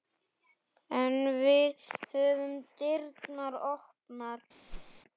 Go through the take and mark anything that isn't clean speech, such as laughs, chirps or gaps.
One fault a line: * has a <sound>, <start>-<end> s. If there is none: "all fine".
* has a whoosh, 4.7-5.0 s